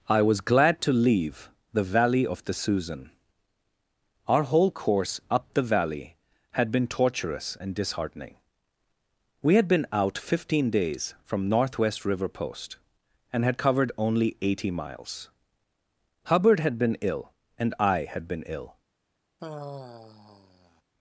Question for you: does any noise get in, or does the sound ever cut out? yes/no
yes